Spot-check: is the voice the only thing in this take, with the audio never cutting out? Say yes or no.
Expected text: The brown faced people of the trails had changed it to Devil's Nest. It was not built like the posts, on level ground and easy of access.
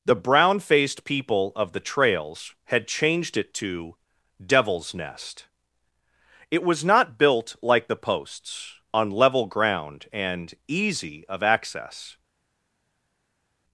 yes